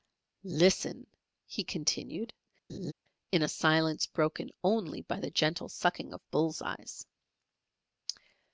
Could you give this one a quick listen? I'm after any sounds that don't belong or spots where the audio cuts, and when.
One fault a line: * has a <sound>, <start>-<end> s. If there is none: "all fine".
* has a laugh, 2.7-2.9 s